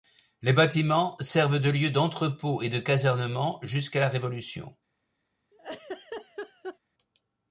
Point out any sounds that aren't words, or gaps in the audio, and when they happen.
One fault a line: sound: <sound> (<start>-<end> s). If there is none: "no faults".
sound: laugh (5.5-6.8 s)